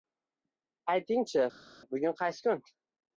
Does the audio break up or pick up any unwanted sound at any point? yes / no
no